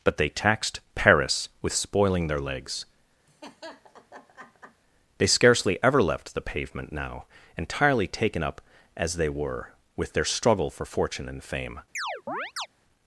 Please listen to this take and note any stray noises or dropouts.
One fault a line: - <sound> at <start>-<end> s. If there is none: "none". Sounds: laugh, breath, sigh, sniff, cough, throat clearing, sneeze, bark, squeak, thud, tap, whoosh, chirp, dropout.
- laugh at 3.3-4.8 s
- chirp at 11.9-12.7 s